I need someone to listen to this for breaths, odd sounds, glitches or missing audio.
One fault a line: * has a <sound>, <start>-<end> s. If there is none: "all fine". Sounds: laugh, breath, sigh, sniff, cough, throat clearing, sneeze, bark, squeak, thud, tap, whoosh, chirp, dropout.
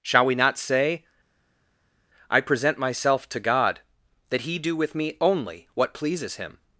all fine